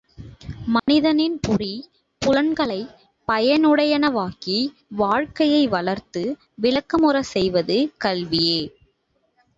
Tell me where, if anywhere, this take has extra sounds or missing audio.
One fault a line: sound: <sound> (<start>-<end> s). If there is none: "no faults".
sound: dropout (0.8-0.9 s)